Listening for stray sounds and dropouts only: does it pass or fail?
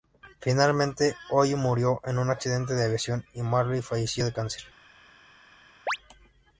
fail